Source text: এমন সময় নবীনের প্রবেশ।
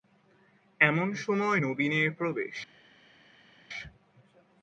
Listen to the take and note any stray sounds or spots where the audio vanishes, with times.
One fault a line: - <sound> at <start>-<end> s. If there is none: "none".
none